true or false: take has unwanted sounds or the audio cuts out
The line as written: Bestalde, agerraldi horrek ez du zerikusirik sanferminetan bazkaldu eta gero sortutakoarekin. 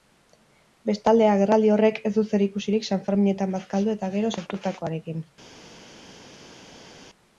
false